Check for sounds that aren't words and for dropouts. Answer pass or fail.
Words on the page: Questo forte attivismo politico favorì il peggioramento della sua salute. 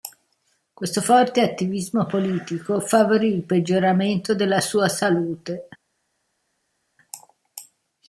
pass